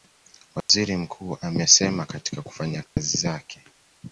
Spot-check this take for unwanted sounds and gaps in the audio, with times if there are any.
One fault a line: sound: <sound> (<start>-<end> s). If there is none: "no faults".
sound: dropout (0.6-0.7 s)
sound: dropout (2.9-3.0 s)